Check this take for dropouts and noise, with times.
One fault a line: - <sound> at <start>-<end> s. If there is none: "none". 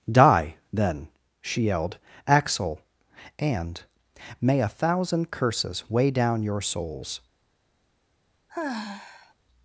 - sigh at 8.5-9.3 s